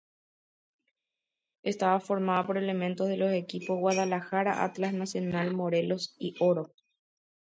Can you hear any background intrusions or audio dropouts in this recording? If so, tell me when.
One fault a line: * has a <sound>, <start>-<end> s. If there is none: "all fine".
all fine